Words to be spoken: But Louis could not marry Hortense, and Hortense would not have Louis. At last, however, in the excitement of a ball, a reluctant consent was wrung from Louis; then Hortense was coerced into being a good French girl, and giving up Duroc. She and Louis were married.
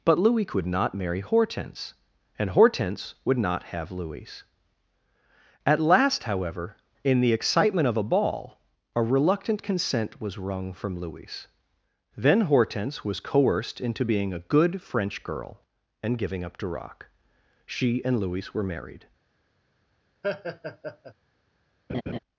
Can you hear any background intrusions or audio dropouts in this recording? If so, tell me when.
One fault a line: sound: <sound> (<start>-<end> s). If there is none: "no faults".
sound: laugh (20.2-21.1 s)
sound: laugh (21.9-22.2 s)